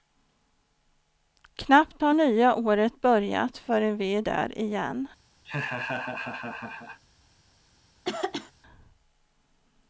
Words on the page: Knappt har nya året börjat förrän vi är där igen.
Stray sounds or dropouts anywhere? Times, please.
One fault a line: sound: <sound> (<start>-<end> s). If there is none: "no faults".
sound: laugh (5.4-7.0 s)
sound: throat clearing (8.0-8.5 s)